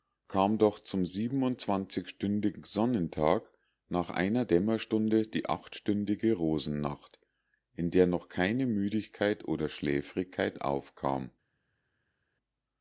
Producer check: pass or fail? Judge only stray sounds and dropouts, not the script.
pass